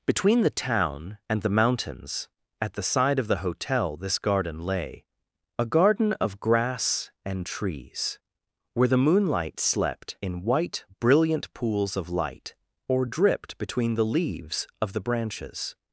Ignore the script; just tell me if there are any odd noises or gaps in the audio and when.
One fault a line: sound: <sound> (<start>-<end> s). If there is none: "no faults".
no faults